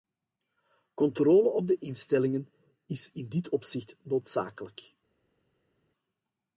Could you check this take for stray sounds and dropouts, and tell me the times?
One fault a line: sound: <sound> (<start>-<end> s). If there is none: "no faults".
no faults